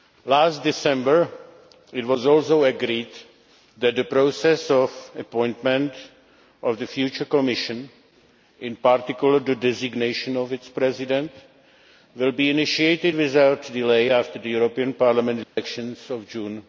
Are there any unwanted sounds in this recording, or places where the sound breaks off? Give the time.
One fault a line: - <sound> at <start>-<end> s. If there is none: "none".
- dropout at 15.4-15.6 s